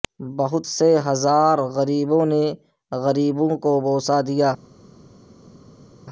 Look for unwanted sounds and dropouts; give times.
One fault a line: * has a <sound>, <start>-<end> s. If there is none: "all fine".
all fine